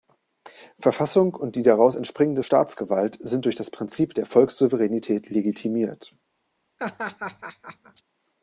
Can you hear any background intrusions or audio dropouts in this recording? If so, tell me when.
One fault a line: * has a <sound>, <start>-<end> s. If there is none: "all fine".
* has a laugh, 6.8-8.0 s